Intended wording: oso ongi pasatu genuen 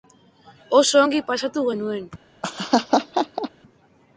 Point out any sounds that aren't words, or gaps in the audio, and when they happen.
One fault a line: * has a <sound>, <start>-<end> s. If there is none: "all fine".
* has a laugh, 2.4-3.5 s